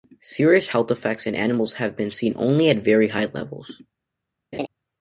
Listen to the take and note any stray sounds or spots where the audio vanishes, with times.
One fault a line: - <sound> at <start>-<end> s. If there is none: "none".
- laugh at 4.5-4.7 s